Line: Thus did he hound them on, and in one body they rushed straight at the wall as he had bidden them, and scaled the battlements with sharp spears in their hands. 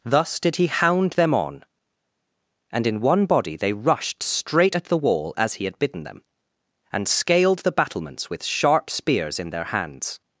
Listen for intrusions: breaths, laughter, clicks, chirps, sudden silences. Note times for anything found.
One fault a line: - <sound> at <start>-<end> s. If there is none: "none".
none